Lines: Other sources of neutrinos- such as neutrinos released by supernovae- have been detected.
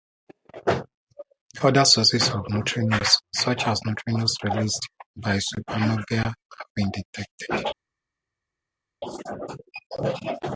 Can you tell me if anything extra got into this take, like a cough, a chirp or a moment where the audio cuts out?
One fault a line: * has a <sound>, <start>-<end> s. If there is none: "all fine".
all fine